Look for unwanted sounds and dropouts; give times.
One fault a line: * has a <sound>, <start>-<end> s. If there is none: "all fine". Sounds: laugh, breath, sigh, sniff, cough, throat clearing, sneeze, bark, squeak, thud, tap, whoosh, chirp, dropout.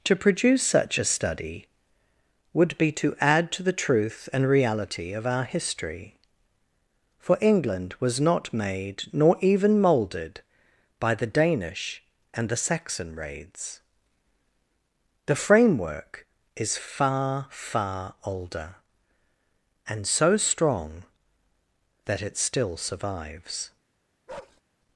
* has a bark, 24.3-24.6 s